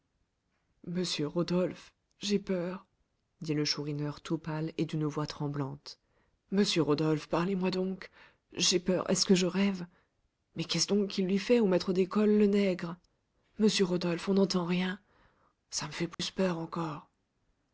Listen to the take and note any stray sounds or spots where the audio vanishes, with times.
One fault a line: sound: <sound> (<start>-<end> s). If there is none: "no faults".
sound: dropout (16.1-16.2 s)